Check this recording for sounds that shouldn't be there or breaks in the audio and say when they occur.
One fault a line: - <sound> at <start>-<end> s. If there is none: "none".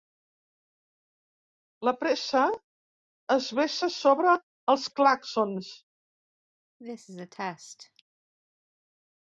- cough at 6.8-8.0 s